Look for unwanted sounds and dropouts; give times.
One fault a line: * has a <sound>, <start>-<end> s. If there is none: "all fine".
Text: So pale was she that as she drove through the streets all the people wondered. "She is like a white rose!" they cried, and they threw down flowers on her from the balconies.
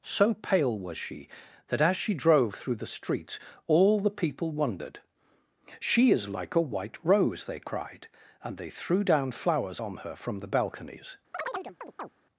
* has a chirp, 11.3-12.1 s